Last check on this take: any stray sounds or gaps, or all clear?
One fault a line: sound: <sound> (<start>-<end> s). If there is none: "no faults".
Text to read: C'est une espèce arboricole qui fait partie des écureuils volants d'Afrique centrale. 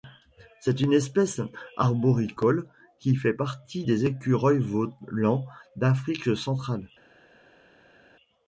no faults